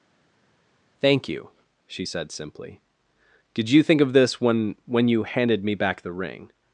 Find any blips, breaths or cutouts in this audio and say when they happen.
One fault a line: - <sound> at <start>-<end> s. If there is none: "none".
none